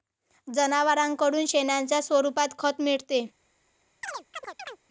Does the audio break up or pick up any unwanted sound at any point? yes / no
yes